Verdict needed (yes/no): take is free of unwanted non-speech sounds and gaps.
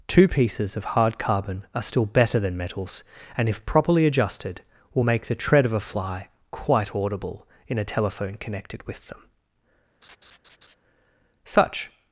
no